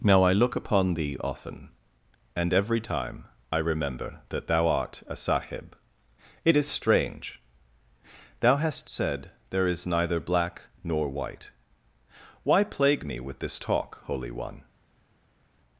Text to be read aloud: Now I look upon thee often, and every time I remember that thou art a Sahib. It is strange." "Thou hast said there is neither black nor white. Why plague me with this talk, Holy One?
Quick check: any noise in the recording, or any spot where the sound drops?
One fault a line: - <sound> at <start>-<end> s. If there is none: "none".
none